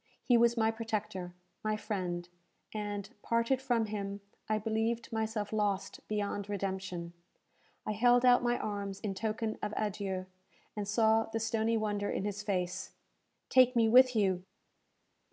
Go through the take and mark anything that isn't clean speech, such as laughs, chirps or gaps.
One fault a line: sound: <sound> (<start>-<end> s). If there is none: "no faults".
no faults